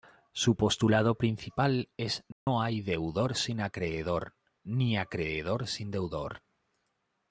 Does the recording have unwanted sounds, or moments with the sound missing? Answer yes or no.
yes